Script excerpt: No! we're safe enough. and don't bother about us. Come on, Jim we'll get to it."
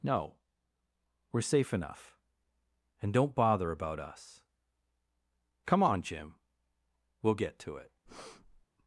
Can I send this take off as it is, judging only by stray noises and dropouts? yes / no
no